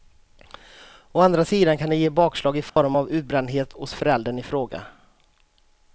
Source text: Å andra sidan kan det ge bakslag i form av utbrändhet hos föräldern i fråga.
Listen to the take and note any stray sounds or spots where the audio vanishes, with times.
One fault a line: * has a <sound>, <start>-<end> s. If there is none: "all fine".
* has a dropout, 2.7-2.8 s